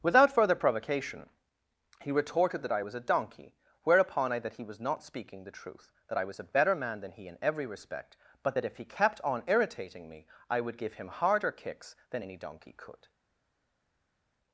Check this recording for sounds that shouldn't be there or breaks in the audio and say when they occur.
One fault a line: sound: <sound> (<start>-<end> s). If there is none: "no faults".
no faults